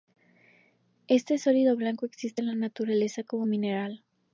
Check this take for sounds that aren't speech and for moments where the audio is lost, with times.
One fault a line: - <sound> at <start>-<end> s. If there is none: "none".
none